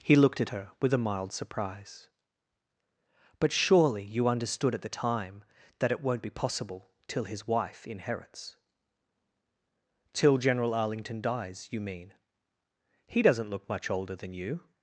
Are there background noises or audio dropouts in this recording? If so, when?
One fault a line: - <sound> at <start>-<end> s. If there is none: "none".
none